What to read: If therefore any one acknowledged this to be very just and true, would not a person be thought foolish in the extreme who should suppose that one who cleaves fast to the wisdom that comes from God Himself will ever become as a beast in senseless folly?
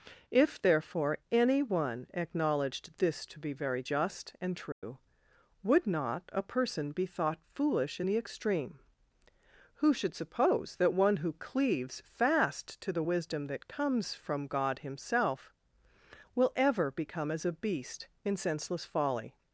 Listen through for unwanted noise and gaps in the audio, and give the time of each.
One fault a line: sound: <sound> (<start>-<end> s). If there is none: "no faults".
sound: dropout (4.7-4.8 s)